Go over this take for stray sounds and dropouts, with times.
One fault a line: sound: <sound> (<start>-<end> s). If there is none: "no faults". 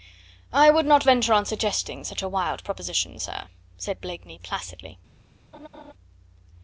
sound: laugh (5.5-5.9 s)